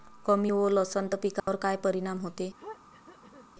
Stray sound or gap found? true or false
true